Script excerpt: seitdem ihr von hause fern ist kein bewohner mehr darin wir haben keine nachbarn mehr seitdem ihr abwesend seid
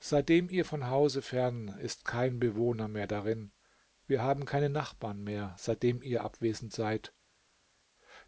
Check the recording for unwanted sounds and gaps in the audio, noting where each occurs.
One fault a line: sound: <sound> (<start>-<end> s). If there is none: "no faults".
no faults